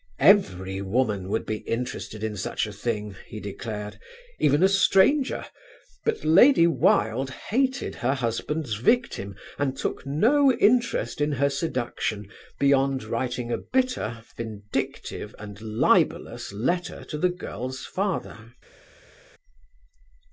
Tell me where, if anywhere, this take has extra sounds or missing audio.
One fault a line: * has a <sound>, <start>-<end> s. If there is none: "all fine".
all fine